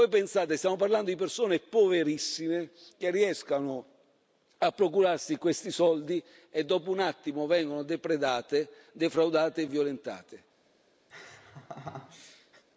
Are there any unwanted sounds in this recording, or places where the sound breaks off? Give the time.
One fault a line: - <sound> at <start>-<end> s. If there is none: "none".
- laugh at 11.1-12.6 s